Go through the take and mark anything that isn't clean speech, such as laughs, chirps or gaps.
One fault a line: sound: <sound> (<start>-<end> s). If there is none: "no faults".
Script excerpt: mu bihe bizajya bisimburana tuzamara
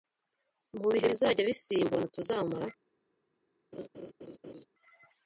sound: laugh (3.7-4.7 s)